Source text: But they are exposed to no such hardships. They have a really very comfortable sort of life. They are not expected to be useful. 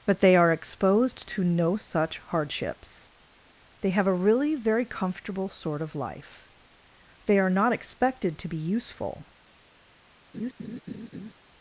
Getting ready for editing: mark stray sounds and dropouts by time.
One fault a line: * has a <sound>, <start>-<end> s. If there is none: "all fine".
* has a laugh, 10.3-11.3 s